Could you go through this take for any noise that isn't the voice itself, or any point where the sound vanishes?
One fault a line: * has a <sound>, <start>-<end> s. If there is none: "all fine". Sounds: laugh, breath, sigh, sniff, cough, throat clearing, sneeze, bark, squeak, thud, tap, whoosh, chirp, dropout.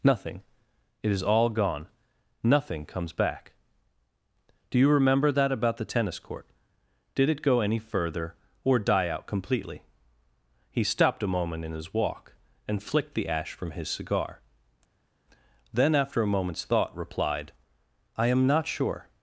all fine